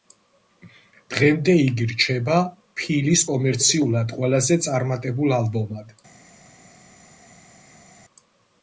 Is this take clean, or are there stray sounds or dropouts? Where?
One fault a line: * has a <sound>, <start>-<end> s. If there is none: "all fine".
all fine